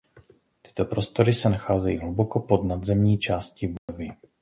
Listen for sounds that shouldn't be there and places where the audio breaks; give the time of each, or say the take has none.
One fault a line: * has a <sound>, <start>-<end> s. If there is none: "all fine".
* has a dropout, 3.8-3.9 s